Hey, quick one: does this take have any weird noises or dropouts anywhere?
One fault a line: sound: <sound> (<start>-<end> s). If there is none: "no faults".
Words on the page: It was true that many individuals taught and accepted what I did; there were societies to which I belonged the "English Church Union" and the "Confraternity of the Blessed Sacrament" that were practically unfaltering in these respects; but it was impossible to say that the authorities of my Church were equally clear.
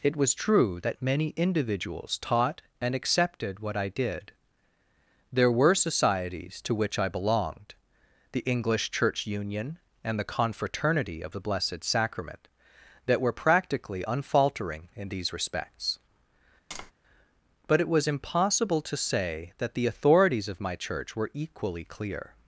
sound: tap (16.7-16.9 s)